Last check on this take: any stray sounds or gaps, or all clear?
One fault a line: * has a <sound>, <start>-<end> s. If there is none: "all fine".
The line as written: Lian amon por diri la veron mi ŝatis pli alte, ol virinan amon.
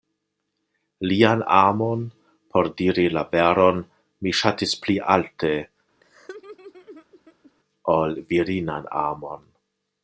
* has a laugh, 6.0-7.5 s